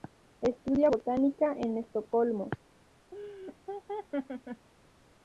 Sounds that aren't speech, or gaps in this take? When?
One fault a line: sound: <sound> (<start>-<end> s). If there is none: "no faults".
sound: laugh (3.1-4.7 s)